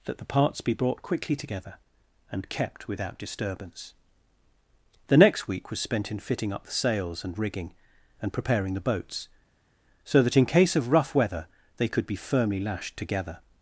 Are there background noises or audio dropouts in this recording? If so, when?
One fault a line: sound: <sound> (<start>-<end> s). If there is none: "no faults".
no faults